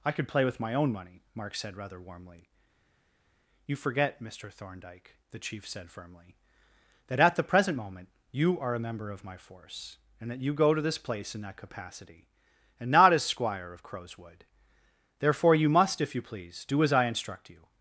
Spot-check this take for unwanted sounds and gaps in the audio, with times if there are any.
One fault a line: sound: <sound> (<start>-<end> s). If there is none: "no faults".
no faults